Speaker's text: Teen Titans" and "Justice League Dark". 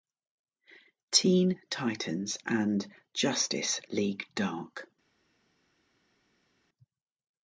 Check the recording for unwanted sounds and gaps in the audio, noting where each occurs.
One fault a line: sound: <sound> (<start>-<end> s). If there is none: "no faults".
no faults